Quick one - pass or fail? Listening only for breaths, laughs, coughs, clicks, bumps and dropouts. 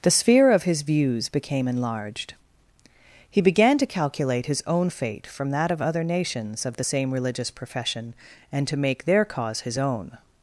pass